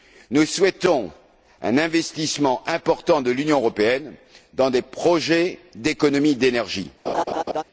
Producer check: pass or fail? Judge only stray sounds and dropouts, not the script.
fail